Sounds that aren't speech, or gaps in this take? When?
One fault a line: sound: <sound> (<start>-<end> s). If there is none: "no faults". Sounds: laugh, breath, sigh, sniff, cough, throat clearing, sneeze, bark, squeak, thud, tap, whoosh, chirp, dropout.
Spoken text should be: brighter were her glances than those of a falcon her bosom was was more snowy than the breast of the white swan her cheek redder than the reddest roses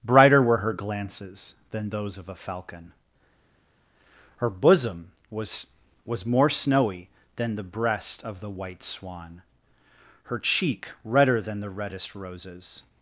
no faults